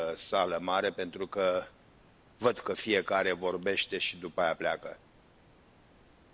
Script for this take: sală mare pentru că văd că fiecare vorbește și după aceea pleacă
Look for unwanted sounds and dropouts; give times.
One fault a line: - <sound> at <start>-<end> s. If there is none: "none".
none